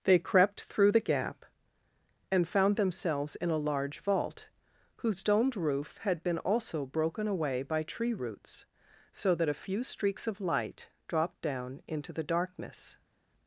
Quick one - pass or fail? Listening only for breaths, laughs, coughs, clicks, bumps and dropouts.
pass